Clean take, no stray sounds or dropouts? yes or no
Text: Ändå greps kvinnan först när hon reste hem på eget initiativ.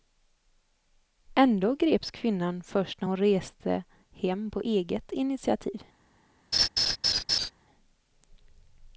no